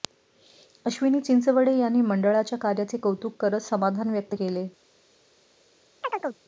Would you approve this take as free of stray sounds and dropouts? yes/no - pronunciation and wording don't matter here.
no